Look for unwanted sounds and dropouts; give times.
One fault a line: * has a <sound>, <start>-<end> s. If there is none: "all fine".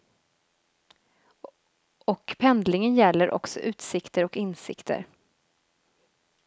all fine